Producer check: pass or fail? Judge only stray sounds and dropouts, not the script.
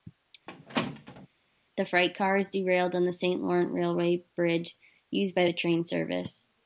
fail